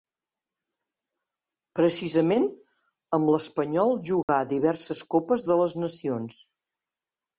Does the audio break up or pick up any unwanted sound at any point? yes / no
yes